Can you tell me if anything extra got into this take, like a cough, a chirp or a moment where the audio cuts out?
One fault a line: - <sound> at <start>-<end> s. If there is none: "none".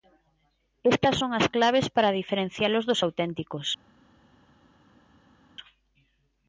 none